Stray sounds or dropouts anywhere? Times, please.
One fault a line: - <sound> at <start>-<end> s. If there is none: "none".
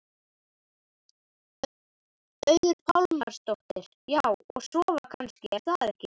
none